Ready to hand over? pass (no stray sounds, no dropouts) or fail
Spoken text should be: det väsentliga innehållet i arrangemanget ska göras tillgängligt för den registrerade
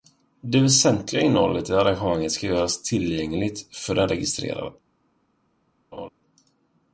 fail